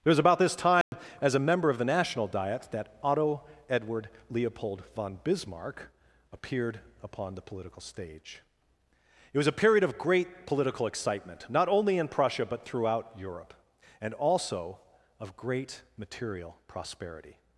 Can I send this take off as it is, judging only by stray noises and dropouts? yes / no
no